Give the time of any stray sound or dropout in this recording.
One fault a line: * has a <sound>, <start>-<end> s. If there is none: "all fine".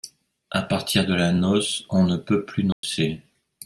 * has a dropout, 2.7-2.8 s